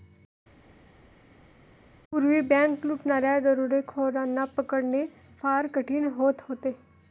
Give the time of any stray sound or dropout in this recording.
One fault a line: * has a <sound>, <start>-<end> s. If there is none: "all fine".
all fine